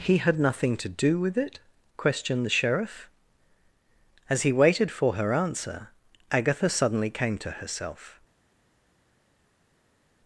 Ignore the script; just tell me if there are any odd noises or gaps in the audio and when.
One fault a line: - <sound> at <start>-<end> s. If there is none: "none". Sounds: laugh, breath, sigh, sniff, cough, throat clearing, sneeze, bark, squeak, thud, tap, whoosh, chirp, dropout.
none